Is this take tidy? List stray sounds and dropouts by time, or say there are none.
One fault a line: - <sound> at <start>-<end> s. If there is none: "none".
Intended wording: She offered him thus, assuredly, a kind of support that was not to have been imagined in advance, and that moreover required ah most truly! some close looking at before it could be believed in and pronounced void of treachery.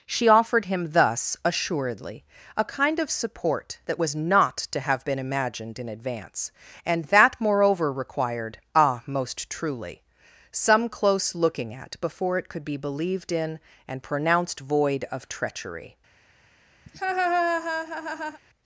- laugh at 16.9-18.4 s